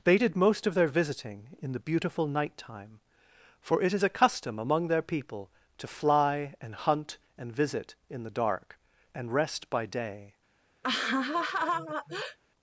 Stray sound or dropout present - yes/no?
yes